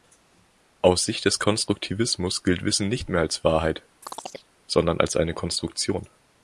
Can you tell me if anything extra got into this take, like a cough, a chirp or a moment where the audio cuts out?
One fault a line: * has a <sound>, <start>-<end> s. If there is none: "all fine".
* has a chirp, 4.0-4.5 s